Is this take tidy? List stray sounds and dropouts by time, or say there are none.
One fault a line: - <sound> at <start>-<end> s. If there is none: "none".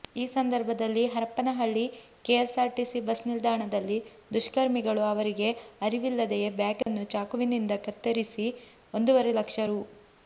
- dropout at 6.8-6.9 s